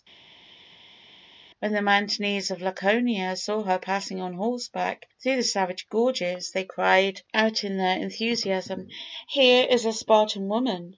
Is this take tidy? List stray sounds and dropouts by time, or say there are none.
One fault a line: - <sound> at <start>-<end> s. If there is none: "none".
none